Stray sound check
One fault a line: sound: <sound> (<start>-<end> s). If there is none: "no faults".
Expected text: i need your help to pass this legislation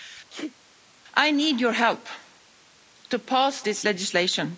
sound: sneeze (0.3-0.6 s)